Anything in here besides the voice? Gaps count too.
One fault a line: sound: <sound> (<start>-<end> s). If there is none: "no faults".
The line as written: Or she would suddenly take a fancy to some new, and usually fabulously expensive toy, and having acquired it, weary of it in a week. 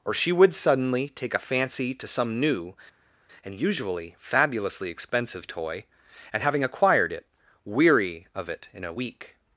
no faults